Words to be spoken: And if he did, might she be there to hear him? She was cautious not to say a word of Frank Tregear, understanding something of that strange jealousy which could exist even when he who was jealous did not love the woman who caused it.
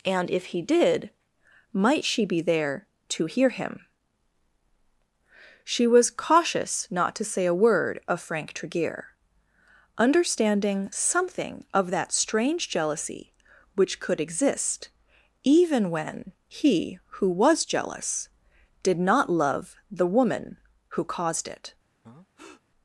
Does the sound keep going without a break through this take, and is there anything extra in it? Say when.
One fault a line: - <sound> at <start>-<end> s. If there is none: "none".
- breath at 22.0-22.6 s